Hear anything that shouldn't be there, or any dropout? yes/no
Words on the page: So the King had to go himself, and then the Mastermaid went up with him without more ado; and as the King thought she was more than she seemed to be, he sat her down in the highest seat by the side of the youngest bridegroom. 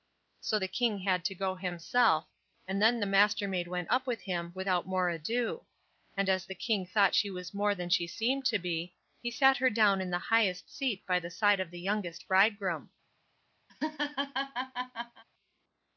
yes